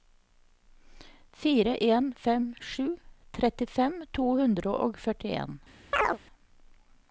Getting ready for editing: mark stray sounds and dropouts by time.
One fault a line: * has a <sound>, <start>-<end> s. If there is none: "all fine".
* has a chirp, 5.9-6.2 s